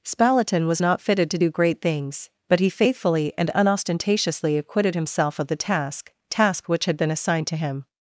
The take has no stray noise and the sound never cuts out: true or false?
true